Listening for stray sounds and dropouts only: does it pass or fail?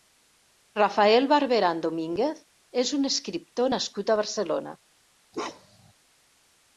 fail